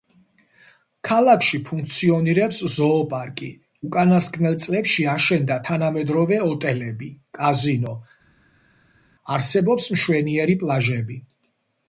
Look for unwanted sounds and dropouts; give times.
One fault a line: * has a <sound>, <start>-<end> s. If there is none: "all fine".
all fine